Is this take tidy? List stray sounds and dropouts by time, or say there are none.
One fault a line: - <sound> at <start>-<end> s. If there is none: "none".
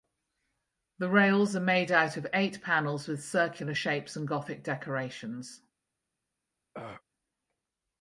- throat clearing at 6.7-7.0 s